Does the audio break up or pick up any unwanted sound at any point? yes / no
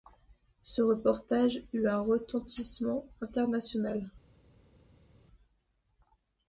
no